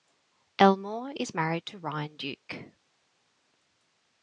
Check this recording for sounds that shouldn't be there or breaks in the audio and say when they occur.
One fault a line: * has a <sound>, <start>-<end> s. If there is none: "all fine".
all fine